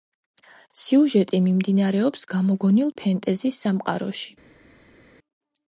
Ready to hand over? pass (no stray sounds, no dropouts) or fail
pass